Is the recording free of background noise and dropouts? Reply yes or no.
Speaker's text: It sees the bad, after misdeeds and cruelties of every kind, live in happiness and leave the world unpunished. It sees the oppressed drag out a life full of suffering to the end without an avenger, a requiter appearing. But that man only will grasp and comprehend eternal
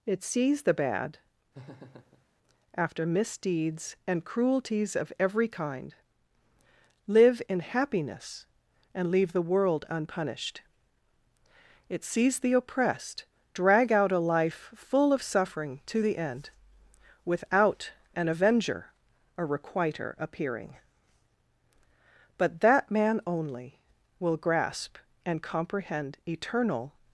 no